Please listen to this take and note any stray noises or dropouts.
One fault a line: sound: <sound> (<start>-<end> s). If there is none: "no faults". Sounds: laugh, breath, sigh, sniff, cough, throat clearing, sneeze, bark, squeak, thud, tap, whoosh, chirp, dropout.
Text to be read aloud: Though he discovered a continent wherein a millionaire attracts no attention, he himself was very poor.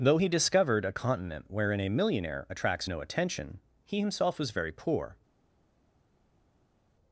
no faults